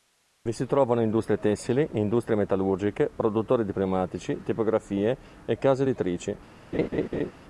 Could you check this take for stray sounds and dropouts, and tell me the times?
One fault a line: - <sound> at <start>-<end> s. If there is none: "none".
- laugh at 6.7-7.3 s